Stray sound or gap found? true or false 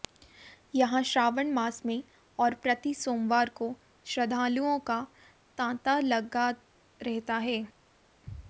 false